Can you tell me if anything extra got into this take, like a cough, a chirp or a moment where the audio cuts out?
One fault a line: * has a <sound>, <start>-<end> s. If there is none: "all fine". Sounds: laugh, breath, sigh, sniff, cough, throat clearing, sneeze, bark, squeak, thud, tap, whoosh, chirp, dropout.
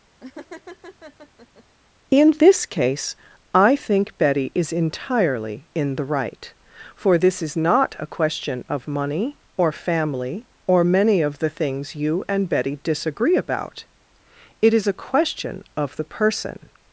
* has a laugh, 0.2-1.6 s